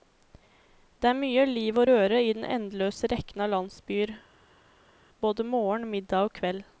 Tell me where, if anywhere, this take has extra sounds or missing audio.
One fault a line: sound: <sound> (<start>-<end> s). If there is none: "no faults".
no faults